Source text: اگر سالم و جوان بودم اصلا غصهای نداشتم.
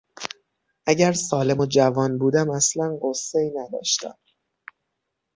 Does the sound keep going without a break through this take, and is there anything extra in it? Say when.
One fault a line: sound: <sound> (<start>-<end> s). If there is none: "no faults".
no faults